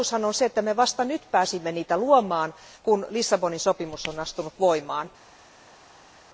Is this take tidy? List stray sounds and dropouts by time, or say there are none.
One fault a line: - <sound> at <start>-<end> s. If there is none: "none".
none